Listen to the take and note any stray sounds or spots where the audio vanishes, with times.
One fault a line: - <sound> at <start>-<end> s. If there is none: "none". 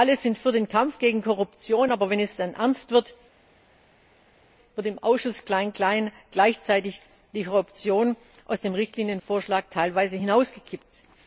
none